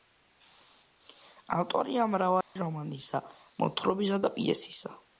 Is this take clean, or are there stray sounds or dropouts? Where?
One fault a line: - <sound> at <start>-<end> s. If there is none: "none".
- dropout at 2.4-2.6 s